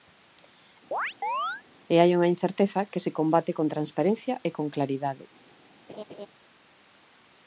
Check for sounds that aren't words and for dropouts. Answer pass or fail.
fail